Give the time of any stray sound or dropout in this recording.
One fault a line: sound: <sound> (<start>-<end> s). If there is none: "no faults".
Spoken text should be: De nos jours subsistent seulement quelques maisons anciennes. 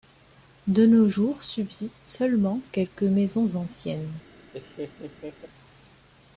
sound: laugh (4.5-5.5 s)